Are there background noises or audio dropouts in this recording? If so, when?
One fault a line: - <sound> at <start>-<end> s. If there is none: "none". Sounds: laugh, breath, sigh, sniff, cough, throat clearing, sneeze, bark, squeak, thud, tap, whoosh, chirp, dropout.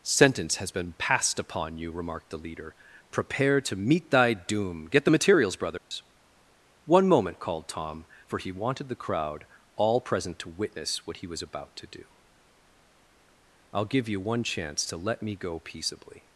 - dropout at 5.8-5.9 s